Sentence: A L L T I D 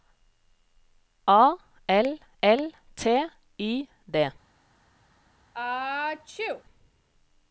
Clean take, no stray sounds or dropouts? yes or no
no